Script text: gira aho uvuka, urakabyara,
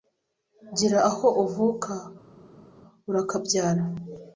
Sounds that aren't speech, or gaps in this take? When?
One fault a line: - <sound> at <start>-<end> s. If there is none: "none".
none